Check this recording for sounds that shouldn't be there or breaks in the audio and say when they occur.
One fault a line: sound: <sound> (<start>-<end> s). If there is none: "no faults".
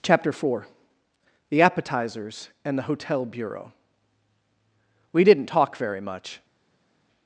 no faults